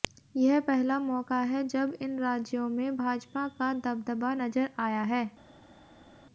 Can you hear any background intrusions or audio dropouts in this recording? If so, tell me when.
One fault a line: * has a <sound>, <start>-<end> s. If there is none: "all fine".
all fine